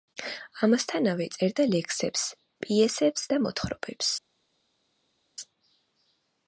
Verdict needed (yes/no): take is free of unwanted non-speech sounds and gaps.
yes